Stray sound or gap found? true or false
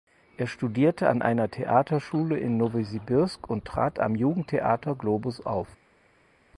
false